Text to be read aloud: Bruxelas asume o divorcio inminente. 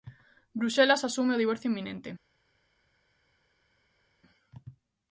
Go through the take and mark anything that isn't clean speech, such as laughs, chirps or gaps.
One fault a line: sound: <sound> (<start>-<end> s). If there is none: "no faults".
no faults